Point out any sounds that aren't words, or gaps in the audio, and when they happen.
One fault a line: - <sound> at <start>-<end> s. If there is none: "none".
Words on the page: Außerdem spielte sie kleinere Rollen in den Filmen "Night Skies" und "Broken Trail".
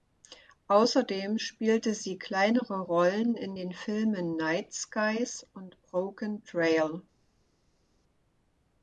none